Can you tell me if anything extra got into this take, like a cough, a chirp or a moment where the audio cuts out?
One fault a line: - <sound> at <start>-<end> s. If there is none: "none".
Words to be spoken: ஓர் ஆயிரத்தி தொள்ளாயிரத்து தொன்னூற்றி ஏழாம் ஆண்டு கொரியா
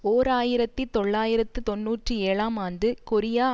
none